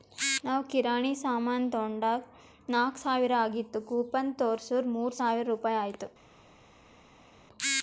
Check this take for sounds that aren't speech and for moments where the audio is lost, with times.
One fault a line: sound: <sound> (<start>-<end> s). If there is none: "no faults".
no faults